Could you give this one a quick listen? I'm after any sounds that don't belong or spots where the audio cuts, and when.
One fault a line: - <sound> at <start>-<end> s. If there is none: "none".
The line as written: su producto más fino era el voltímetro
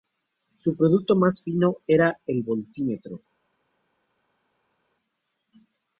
none